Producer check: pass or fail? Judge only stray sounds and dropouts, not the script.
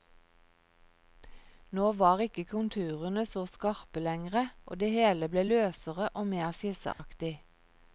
fail